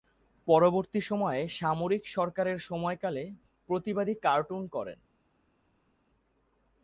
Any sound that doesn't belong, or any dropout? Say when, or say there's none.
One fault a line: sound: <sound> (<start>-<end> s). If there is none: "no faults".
no faults